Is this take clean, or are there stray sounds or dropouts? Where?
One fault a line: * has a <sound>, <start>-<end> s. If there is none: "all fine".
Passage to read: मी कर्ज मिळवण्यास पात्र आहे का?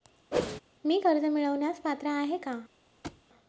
* has a whoosh, 0.3-0.6 s
* has a thud, 3.0-3.2 s